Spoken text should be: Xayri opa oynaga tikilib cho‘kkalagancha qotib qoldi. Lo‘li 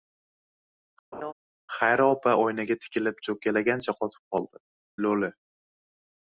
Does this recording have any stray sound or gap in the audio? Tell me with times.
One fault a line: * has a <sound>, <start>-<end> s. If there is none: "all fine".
* has a laugh, 1.1-1.3 s